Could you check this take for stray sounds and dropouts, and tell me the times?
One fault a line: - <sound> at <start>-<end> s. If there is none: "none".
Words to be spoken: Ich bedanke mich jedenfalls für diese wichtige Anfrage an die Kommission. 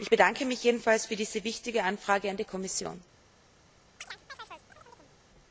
- chirp at 4.0-5.2 s